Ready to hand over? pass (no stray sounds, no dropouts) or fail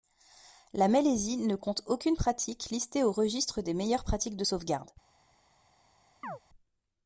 fail